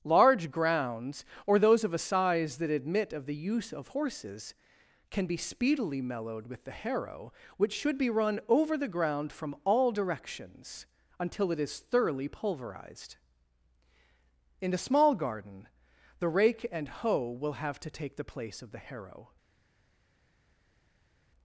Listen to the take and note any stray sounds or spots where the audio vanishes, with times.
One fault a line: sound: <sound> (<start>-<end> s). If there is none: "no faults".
no faults